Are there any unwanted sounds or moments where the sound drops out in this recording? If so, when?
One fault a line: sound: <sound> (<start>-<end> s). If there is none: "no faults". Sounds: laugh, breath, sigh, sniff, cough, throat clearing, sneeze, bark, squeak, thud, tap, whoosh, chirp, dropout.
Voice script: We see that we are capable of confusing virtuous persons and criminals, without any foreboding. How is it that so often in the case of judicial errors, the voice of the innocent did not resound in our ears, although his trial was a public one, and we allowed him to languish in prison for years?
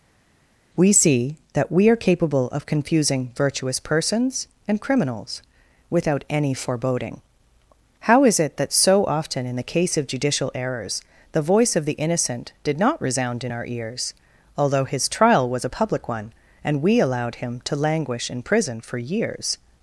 no faults